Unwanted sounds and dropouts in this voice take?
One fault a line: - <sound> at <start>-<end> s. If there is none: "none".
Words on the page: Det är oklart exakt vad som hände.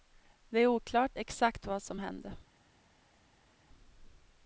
none